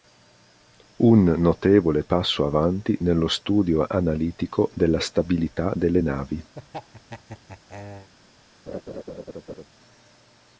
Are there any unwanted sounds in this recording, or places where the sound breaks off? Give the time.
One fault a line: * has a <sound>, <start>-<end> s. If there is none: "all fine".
* has a laugh, 6.5-8.1 s
* has a laugh, 8.7-9.7 s